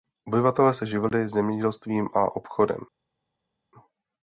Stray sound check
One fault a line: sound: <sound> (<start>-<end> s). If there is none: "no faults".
no faults